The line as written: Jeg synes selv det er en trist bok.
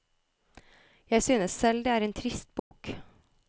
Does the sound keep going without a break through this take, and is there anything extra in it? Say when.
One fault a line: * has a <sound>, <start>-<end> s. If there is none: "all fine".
* has a dropout, 2.6-2.7 s